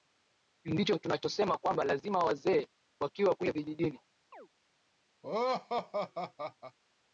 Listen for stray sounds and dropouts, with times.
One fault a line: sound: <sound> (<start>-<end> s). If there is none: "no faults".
sound: chirp (4.3-4.5 s)
sound: laugh (5.2-6.8 s)